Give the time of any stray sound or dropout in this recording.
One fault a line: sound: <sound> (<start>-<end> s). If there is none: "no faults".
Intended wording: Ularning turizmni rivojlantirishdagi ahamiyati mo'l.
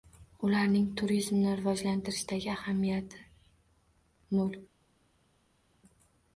no faults